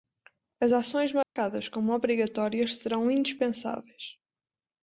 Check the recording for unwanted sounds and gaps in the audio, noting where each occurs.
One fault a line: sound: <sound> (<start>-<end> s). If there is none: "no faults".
sound: dropout (1.2-1.4 s)